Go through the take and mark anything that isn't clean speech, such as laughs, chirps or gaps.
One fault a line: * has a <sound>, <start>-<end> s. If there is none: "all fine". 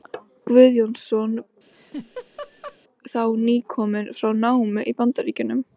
* has a laugh, 1.7-2.8 s